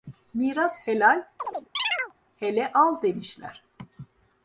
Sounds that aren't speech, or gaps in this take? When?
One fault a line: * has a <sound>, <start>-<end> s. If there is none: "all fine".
* has a chirp, 1.4-2.1 s